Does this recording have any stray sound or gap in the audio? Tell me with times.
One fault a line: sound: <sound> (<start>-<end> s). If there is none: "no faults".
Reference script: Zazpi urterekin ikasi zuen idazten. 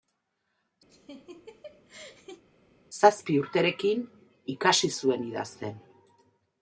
sound: laugh (0.9-2.4 s)